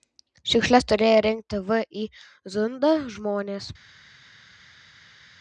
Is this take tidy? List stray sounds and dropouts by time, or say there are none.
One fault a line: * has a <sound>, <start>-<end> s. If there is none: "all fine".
all fine